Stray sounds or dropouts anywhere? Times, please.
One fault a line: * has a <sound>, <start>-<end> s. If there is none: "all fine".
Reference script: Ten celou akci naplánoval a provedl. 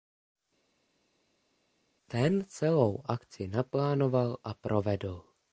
all fine